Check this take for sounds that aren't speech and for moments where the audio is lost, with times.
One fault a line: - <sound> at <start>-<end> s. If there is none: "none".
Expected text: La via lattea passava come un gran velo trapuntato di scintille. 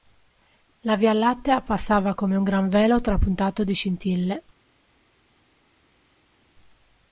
none